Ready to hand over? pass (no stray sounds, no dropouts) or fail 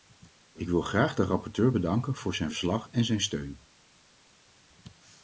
pass